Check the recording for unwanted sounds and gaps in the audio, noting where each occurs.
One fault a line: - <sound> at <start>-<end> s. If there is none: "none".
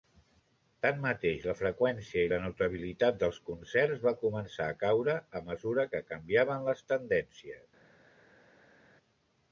none